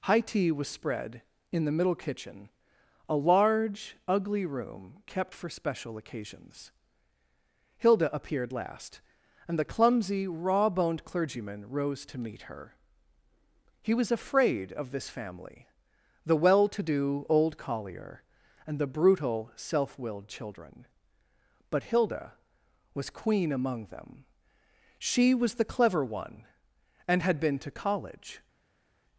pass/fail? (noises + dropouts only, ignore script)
pass